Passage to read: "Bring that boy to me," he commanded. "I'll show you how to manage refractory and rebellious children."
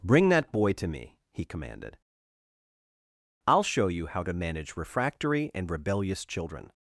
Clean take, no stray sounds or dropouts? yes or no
yes